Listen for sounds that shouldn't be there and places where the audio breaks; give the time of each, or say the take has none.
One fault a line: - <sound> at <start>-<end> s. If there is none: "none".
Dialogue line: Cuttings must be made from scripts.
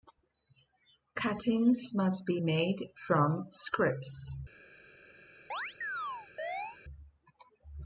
- chirp at 5.5-6.8 s